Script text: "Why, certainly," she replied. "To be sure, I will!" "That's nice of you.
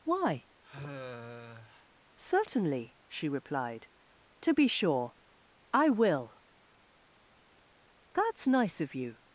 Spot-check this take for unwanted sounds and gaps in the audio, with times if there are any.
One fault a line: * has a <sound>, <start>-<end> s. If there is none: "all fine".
* has a sigh, 0.6-1.9 s